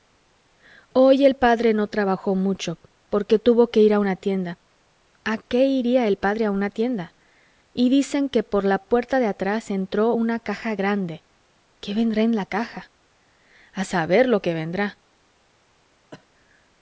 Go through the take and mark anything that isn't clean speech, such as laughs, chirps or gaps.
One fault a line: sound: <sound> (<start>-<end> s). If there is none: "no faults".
sound: cough (16.1-16.3 s)